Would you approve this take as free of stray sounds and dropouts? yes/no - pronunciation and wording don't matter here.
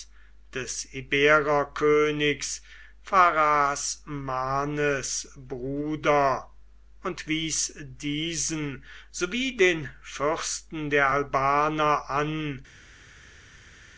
yes